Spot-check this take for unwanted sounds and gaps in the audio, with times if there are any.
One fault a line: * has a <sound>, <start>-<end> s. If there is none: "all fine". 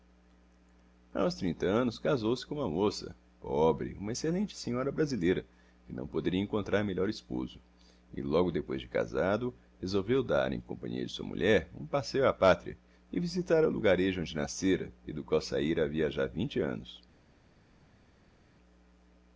all fine